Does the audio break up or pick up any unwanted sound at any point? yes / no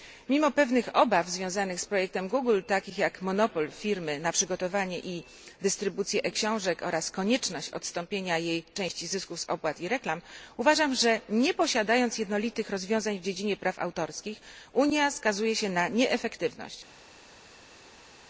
no